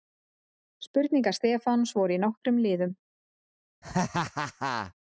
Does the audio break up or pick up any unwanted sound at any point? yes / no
yes